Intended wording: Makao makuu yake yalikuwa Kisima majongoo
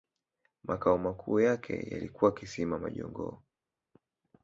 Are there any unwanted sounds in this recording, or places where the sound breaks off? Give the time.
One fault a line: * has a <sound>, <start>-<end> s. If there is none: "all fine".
all fine